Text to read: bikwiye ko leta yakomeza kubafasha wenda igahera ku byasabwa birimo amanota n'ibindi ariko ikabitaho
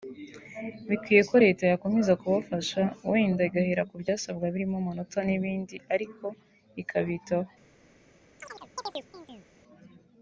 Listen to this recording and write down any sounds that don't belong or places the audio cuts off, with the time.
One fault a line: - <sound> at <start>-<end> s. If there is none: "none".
- chirp at 8.4-9.5 s